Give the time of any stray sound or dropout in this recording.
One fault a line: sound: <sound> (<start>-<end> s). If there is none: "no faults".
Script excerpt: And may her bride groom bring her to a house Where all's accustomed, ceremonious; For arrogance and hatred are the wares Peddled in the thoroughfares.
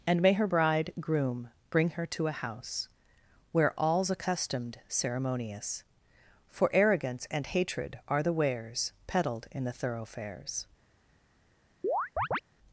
sound: chirp (11.8-12.4 s)